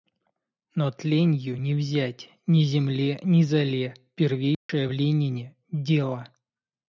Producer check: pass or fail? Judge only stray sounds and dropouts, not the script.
fail